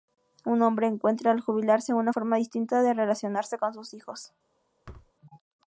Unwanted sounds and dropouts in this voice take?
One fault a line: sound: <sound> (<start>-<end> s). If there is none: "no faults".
sound: thud (4.8-5.1 s)